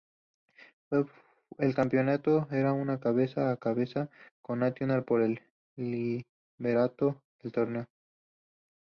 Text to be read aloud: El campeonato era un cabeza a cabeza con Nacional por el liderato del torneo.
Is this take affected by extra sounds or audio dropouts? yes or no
no